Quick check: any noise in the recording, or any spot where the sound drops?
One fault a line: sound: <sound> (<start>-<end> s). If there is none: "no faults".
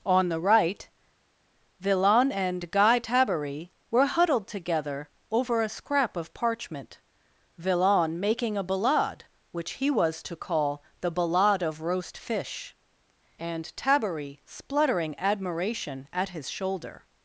no faults